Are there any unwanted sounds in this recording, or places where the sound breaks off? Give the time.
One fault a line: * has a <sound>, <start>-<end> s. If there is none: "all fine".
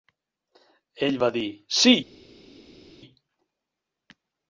all fine